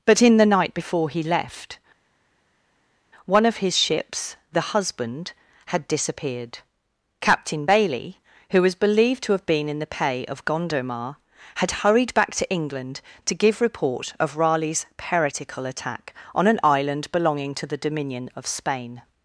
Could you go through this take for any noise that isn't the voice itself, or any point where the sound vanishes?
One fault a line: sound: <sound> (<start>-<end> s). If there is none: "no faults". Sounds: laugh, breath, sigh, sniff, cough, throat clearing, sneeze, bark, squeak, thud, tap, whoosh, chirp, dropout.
no faults